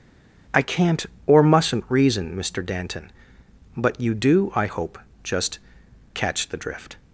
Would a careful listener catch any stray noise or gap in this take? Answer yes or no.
no